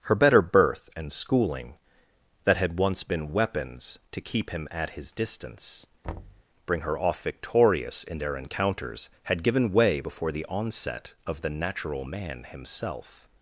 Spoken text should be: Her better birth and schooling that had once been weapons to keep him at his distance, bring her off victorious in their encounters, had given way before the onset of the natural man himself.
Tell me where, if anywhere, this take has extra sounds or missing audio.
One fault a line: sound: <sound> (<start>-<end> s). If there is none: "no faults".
sound: thud (6.0-6.4 s)